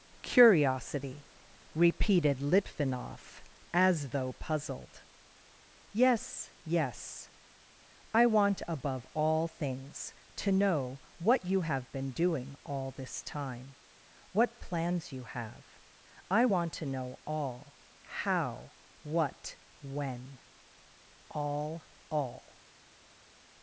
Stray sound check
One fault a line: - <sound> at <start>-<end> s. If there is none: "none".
none